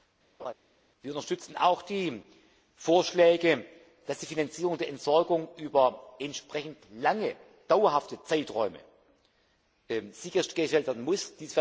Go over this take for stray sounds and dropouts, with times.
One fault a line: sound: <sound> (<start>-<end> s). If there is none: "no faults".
sound: laugh (0.4-0.5 s)